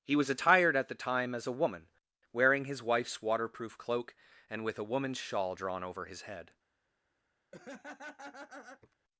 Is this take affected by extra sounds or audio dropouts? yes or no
yes